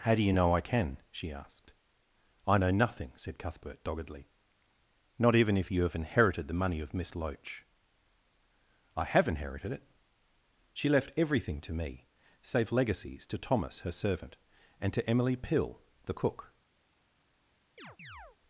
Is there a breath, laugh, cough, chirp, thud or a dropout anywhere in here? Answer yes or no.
yes